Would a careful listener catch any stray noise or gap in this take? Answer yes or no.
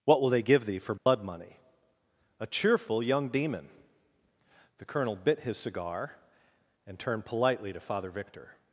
yes